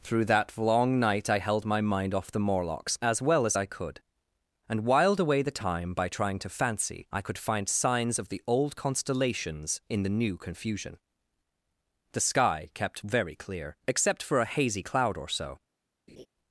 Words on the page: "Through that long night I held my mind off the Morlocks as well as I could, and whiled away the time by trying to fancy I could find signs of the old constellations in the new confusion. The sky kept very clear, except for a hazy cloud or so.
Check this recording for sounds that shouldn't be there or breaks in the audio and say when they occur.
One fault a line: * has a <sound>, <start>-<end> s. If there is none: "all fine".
* has a laugh, 16.1-16.3 s